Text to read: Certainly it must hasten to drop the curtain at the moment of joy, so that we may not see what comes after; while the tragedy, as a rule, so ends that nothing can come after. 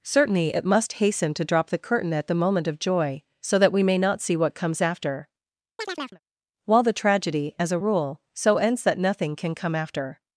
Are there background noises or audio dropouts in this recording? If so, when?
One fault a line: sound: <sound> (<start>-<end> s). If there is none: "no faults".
sound: chirp (5.8-6.2 s)